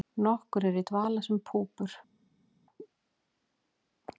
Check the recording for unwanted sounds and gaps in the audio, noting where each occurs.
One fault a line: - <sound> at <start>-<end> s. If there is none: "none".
none